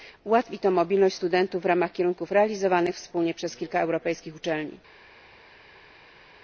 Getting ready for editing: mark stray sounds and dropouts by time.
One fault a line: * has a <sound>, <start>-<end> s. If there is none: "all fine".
all fine